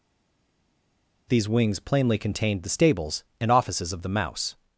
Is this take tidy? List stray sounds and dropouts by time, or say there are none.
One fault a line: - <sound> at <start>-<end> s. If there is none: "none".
none